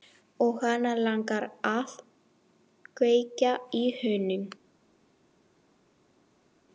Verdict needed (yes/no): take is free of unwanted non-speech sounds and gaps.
yes